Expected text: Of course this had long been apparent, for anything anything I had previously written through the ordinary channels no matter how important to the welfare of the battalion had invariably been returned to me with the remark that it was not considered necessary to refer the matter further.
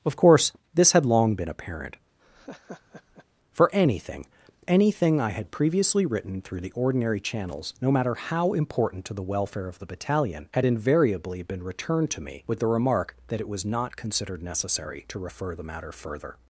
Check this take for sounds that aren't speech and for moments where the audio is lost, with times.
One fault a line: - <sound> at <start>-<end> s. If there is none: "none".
- laugh at 2.2-3.3 s